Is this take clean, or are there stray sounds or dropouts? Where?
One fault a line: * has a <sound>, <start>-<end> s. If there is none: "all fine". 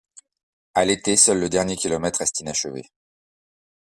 all fine